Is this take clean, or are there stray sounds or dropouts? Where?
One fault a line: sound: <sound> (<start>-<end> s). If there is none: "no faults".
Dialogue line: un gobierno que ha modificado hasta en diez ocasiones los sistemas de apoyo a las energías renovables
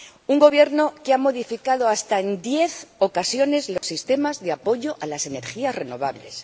sound: dropout (3.8-3.8 s)